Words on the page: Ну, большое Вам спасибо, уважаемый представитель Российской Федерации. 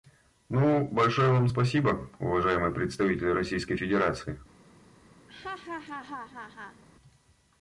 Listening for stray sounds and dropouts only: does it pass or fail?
fail